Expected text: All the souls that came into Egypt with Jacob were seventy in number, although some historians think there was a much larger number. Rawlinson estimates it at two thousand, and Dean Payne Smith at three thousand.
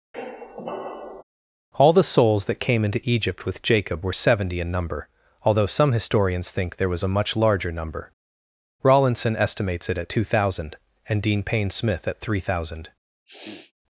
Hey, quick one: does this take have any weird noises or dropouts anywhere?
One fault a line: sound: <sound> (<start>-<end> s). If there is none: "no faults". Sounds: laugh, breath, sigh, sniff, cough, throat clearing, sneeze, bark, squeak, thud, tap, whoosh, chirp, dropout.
sound: squeak (0.1-1.2 s)
sound: sniff (13.3-13.7 s)